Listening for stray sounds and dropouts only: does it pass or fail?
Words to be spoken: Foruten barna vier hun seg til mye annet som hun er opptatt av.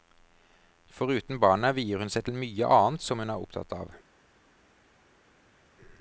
pass